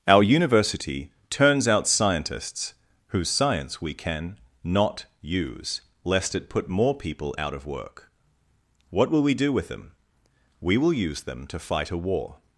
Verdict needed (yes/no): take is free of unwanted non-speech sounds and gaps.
yes